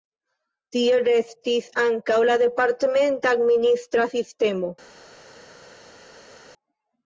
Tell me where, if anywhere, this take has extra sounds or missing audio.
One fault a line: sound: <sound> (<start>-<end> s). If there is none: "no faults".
no faults